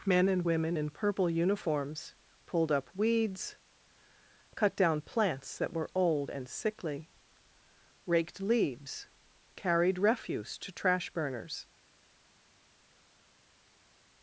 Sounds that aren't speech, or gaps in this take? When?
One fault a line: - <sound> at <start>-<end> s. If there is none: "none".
none